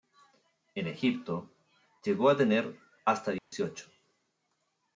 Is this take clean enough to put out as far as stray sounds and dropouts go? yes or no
no